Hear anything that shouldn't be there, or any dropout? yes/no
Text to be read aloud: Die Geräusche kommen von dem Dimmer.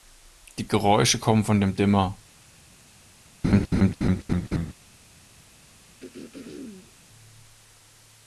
yes